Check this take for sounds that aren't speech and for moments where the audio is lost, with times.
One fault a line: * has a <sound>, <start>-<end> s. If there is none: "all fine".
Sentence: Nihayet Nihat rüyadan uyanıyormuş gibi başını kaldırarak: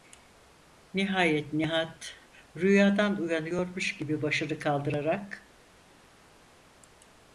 all fine